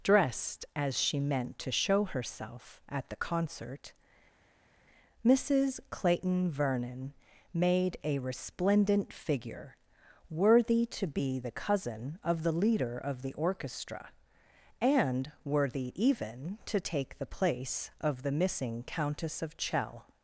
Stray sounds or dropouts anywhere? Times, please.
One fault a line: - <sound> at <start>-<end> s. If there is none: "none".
none